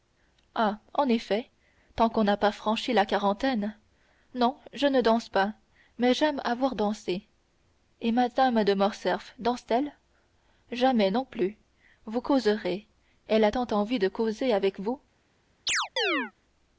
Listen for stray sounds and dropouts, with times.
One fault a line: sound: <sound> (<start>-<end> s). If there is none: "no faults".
sound: chirp (15.7-16.3 s)